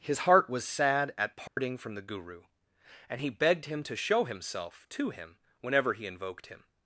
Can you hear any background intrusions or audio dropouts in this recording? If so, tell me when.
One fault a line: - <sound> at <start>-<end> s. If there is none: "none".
- dropout at 1.5-1.6 s